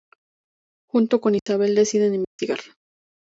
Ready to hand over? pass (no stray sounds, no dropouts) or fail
fail